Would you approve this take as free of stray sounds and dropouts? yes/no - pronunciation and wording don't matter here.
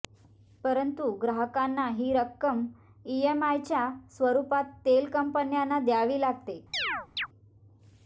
no